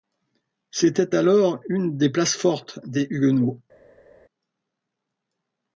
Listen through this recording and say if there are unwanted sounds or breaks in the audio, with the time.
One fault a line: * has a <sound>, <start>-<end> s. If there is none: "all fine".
all fine